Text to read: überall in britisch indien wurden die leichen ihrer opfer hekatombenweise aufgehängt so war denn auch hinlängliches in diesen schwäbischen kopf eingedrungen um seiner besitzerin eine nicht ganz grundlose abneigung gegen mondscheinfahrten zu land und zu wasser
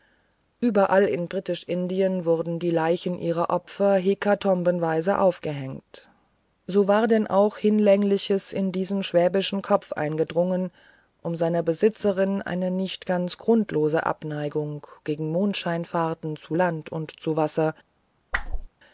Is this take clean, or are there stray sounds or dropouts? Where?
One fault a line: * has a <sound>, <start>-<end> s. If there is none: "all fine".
* has a whoosh, 18.3-18.7 s